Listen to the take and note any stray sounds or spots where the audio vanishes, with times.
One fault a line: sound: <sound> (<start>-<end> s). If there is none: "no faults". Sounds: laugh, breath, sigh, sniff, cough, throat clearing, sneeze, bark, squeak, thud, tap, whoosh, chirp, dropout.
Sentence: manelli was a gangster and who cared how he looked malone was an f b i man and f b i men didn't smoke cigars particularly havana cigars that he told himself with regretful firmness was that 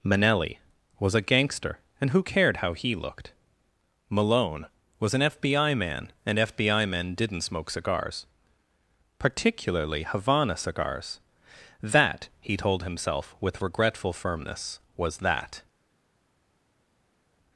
no faults